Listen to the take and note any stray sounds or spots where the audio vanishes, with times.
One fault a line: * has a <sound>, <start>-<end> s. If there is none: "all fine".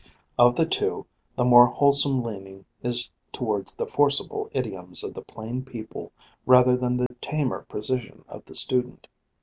* has a dropout, 7.1-7.1 s